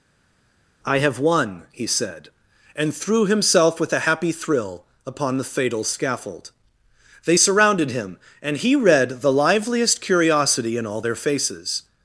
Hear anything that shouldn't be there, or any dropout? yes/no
no